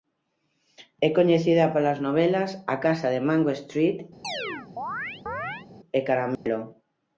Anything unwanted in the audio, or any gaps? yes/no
yes